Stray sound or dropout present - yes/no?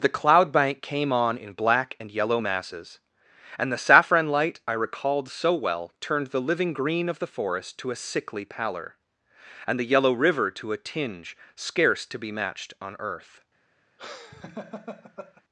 yes